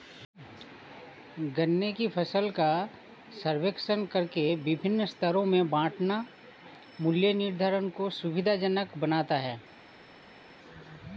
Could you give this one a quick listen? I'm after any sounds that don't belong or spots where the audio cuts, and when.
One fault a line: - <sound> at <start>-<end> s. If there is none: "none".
none